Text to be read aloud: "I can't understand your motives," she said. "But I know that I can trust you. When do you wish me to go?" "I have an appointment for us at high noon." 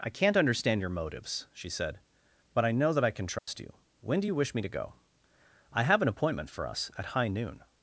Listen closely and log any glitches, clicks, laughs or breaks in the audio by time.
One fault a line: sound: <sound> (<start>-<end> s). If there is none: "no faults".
sound: dropout (3.4-3.5 s)